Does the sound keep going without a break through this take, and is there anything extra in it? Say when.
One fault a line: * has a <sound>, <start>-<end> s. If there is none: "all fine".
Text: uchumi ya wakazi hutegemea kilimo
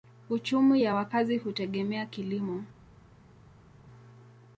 all fine